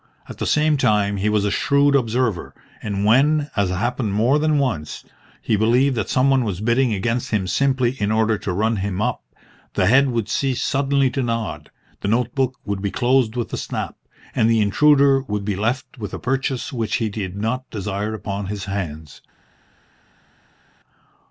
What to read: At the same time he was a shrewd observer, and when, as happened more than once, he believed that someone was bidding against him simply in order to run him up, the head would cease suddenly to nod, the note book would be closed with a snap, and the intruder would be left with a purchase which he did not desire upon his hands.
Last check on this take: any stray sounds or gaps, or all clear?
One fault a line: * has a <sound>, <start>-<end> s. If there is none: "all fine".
all fine